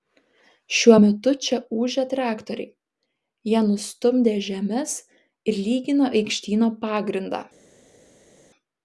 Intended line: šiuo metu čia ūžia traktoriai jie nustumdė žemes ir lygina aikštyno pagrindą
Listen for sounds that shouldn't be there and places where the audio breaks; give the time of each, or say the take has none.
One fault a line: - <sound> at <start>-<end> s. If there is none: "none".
none